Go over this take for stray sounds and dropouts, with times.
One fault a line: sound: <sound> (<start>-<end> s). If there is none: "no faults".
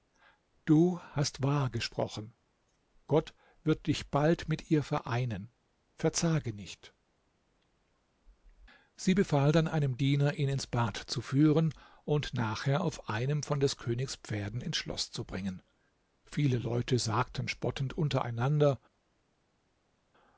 no faults